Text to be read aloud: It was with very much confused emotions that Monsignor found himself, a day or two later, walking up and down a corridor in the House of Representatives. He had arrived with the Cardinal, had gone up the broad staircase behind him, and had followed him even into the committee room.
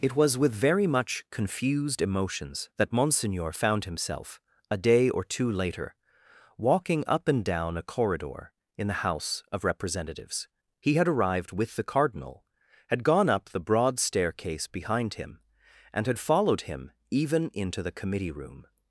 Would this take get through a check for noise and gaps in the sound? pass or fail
pass